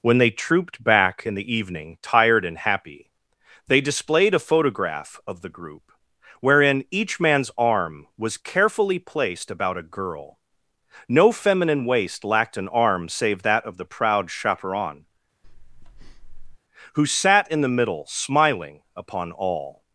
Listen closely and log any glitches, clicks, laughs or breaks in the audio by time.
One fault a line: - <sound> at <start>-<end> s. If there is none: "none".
- breath at 15.4-16.6 s